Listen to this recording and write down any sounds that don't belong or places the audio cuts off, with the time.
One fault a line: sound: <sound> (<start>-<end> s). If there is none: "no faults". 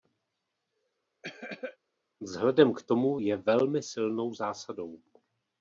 sound: cough (1.2-1.8 s)